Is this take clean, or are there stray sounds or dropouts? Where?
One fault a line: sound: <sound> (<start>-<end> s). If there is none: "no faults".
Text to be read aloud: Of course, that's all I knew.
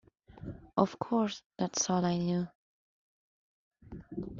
no faults